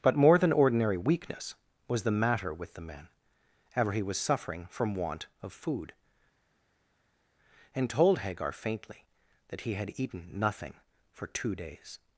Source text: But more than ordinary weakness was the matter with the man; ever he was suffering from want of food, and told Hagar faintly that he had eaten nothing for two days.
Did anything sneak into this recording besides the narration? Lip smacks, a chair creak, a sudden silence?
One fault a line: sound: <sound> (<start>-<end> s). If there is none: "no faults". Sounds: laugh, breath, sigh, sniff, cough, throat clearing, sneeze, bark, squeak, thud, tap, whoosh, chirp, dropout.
no faults